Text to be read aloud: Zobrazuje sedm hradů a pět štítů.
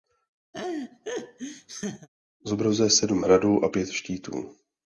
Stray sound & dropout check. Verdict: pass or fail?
fail